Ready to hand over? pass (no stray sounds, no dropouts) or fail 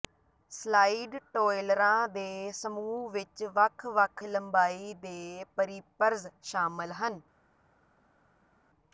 pass